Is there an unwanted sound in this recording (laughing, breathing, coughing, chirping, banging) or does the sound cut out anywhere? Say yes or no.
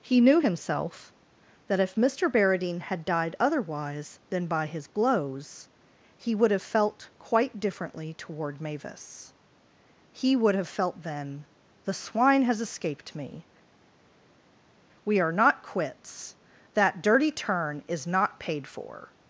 no